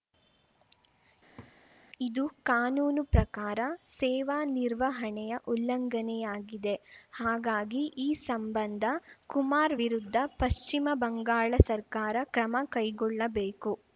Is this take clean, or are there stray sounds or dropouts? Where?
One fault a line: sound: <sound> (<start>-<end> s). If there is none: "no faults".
sound: laugh (1.4-1.5 s)